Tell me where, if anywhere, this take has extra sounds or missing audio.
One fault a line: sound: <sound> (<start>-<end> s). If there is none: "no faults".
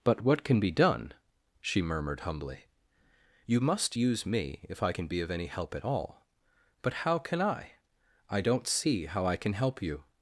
no faults